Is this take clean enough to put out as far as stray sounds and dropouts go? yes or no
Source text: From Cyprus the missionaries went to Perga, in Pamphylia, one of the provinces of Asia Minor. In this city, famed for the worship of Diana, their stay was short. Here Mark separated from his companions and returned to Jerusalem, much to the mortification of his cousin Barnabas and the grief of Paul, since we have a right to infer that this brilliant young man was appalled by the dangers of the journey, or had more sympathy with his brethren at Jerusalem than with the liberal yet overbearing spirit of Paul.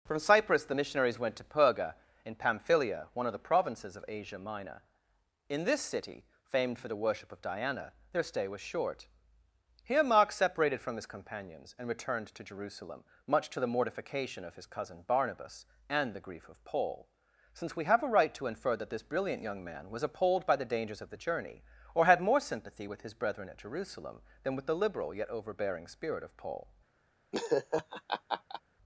no